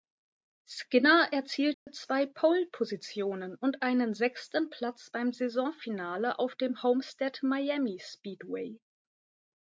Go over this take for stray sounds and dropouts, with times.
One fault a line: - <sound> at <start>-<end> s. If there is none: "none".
- dropout at 1.7-1.9 s